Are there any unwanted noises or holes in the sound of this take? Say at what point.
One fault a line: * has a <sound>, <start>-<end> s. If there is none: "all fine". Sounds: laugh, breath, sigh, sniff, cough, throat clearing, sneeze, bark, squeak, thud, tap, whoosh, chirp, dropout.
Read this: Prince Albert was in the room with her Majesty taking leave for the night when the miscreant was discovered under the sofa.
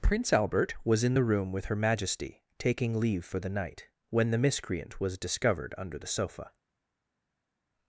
all fine